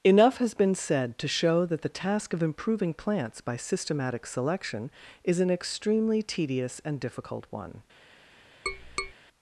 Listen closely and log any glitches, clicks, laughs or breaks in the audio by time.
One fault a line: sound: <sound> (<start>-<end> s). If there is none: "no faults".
sound: tap (8.7-9.1 s)